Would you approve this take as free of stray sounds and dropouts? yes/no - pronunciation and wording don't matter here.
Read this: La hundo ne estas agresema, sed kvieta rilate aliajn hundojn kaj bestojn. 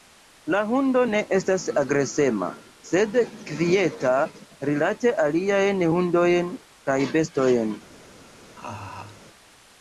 no